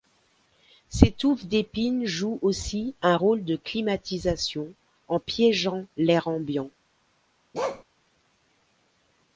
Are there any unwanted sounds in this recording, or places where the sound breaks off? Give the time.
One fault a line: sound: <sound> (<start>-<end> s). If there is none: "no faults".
sound: bark (7.5-7.8 s)